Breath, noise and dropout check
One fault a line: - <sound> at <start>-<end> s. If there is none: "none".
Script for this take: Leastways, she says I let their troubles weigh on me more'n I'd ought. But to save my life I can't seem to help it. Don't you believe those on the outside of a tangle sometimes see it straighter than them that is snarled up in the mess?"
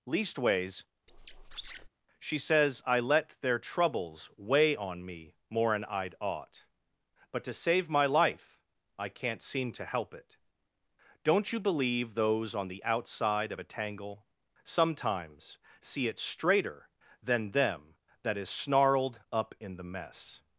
- squeak at 1.1-1.9 s